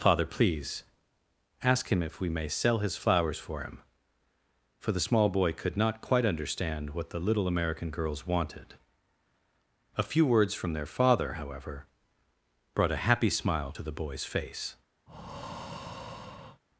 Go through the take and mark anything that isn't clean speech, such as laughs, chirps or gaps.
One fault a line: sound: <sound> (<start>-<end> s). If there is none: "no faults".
sound: breath (15.1-16.6 s)